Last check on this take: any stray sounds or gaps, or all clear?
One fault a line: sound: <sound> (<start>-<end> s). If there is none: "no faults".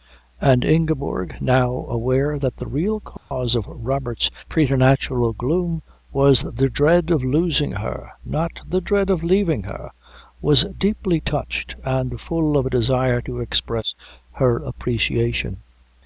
sound: dropout (3.2-3.3 s)